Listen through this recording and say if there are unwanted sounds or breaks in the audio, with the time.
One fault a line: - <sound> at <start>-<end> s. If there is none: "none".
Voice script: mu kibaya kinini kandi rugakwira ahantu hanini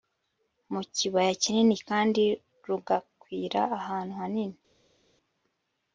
none